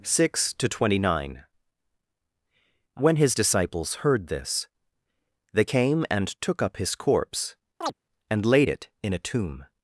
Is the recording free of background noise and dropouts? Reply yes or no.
no